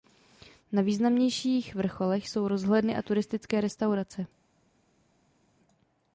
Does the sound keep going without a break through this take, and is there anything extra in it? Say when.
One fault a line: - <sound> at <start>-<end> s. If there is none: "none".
none